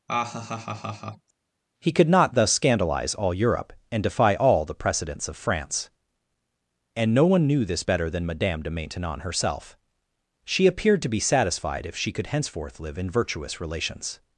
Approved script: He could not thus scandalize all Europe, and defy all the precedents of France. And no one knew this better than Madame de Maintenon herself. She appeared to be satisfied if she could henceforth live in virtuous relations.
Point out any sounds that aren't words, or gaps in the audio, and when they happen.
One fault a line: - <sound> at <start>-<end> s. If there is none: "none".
- laugh at 0.1-1.3 s